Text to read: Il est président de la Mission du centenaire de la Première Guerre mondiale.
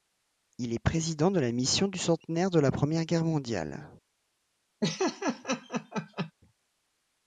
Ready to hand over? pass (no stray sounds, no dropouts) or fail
fail